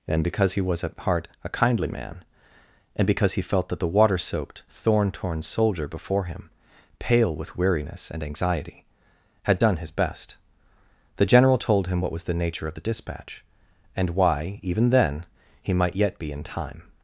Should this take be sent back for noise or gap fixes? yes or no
no